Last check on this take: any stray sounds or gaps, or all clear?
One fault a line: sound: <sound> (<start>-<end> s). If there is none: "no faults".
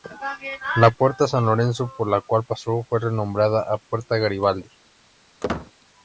sound: squeak (5.4-5.7 s)